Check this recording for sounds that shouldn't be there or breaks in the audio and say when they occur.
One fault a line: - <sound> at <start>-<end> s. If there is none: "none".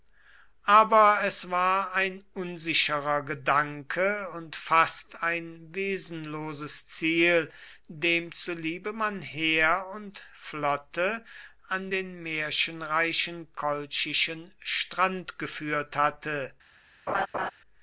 - laugh at 17.1-17.5 s